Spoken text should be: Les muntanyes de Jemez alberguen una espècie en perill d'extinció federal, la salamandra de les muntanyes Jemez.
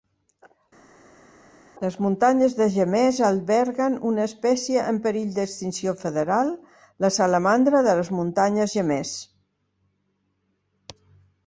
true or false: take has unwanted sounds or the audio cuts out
false